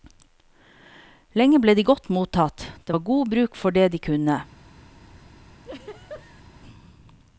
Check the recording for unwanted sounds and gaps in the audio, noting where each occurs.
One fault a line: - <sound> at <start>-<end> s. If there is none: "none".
- laugh at 5.6-6.4 s